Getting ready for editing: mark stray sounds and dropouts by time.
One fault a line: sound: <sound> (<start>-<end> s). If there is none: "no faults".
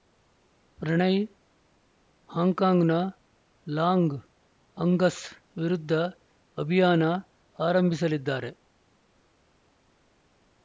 no faults